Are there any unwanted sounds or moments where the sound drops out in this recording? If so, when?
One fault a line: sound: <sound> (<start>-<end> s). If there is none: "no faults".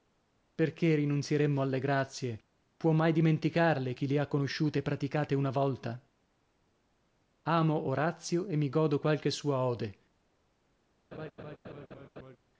sound: laugh (11.1-12.4 s)